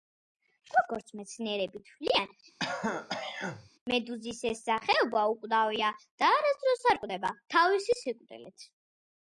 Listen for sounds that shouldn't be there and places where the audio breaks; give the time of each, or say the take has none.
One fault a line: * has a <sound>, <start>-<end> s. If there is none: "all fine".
* has a throat clearing, 2.6-3.7 s